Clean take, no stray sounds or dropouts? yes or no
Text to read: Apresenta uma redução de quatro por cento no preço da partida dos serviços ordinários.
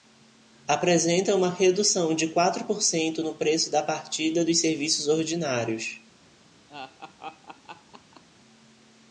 no